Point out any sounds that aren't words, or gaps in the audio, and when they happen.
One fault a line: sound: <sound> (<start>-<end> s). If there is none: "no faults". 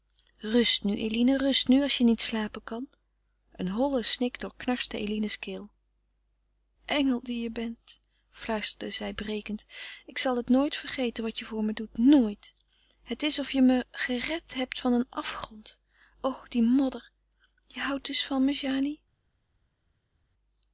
no faults